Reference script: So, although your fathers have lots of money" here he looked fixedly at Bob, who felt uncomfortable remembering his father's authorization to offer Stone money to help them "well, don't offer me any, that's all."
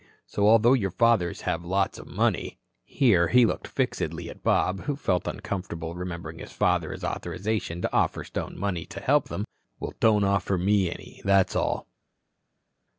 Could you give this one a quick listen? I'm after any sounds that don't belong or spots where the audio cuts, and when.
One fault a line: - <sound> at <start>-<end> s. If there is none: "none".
none